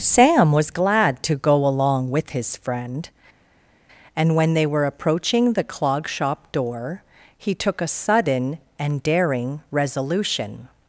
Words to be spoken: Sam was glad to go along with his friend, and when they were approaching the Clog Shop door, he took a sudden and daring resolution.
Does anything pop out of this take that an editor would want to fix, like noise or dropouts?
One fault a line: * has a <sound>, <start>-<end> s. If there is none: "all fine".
all fine